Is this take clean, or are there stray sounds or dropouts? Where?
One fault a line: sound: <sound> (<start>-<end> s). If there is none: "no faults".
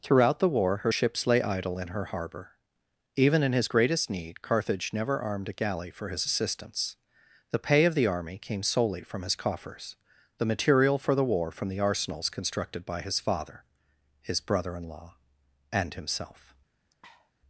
sound: sniff (16.9-17.3 s)